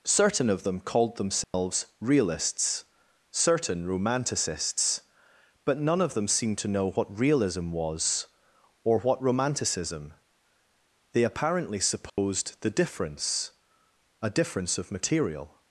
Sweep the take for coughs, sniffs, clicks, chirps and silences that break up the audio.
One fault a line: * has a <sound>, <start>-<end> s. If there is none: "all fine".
* has a dropout, 1.4-1.5 s
* has a dropout, 12.1-12.2 s